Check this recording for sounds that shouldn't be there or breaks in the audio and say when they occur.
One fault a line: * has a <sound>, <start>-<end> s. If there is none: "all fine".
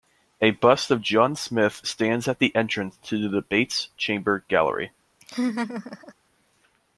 * has a laugh, 5.2-6.1 s